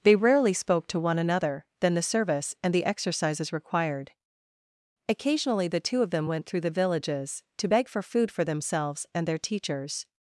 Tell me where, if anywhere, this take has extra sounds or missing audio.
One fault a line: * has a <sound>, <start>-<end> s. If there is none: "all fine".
all fine